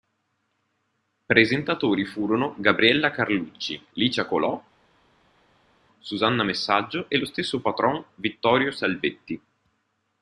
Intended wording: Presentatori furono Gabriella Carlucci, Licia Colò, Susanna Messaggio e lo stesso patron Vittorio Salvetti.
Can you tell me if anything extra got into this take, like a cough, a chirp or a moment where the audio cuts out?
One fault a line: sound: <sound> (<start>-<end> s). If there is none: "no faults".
no faults